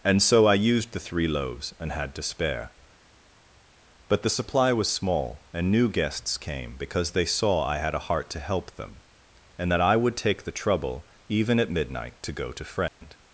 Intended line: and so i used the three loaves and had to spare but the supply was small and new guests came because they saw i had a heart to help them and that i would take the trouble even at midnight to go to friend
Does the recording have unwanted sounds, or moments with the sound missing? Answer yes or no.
yes